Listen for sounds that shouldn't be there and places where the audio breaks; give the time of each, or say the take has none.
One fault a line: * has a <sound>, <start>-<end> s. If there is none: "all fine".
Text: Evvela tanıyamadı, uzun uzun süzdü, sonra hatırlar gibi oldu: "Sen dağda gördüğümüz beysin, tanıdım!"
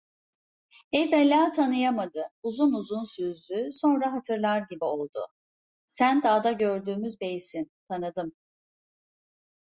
all fine